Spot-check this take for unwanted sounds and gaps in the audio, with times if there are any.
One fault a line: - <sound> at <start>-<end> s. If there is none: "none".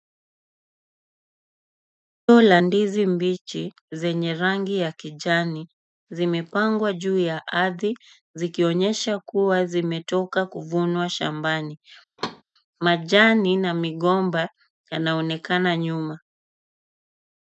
- thud at 12.2-12.4 s